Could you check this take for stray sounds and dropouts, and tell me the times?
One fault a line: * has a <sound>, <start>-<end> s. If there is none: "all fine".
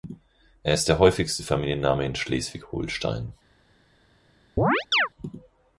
* has a chirp, 4.6-5.1 s